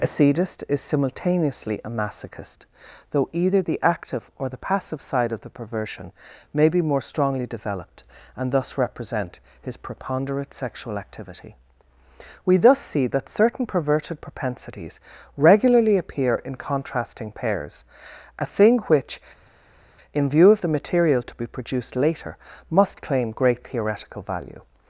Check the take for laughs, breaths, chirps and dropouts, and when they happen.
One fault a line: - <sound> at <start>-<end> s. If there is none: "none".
none